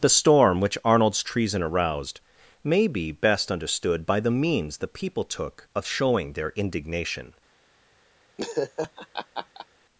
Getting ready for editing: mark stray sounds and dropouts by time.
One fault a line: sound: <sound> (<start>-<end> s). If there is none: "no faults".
sound: laugh (8.4-9.7 s)